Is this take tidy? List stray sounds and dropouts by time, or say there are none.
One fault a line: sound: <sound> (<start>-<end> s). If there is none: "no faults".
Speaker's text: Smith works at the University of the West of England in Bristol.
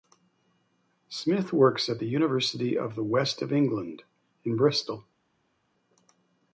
no faults